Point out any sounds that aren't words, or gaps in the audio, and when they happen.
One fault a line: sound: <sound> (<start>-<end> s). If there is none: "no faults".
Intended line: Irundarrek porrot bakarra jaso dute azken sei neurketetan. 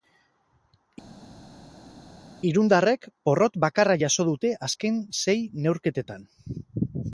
no faults